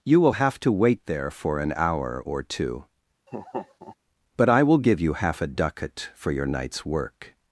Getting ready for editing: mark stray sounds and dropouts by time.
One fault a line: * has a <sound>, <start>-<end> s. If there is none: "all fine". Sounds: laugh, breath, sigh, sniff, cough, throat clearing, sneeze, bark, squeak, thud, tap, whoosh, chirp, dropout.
* has a laugh, 3.3-4.0 s